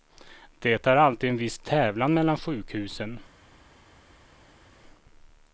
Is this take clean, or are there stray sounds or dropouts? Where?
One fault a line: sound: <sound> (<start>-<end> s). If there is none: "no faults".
no faults